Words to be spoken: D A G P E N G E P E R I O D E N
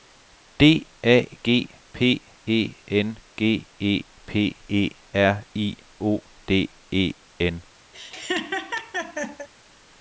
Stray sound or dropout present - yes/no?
yes